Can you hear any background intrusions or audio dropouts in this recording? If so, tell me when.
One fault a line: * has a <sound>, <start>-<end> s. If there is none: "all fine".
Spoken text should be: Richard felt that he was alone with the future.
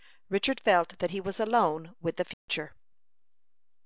* has a dropout, 2.3-2.5 s